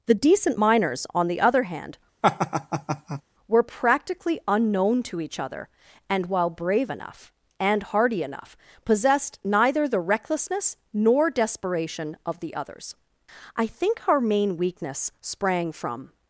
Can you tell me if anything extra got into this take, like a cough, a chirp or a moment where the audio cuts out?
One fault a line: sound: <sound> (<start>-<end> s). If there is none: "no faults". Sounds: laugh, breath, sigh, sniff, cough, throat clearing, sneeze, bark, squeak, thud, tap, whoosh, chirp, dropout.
sound: laugh (2.2-3.2 s)